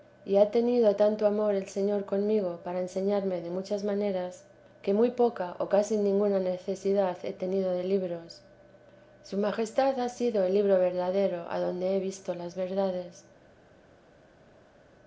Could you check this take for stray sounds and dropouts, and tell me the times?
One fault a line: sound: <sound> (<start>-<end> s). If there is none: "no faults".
no faults